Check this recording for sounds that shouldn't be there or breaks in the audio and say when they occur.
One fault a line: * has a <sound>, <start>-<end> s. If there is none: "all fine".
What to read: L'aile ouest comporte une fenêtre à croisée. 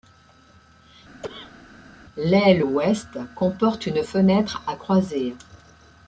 * has a cough, 1.2-1.6 s